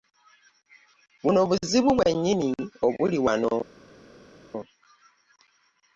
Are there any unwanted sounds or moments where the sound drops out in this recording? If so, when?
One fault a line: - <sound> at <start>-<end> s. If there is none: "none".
none